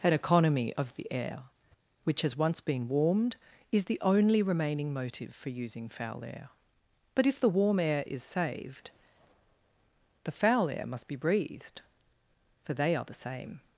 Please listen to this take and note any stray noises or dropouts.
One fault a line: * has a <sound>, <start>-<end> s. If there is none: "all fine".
all fine